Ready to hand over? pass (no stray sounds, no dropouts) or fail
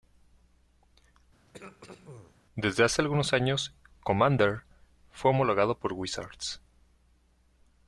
fail